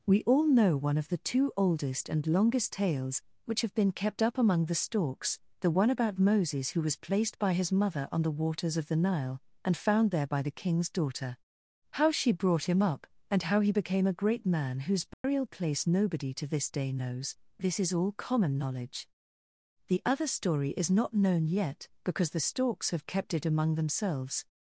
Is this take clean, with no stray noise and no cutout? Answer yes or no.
no